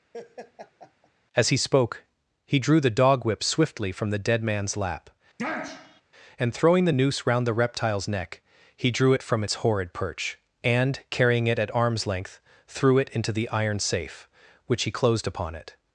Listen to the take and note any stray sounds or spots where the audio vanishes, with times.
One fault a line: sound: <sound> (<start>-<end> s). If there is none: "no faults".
sound: laugh (0.1-1.1 s)
sound: sniff (5.4-6.0 s)